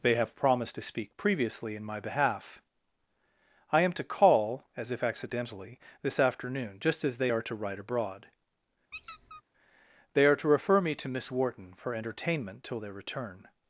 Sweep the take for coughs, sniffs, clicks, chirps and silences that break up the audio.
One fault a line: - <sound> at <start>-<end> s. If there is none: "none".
- squeak at 8.9-9.4 s